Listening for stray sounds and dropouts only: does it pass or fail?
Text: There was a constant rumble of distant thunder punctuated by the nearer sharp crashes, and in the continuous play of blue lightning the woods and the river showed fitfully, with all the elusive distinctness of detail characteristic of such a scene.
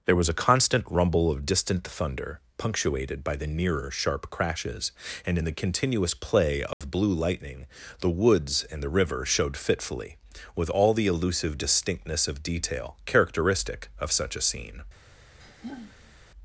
fail